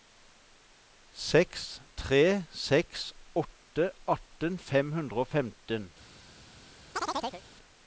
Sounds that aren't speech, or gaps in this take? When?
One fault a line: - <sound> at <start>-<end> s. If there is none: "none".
- chirp at 6.9-7.4 s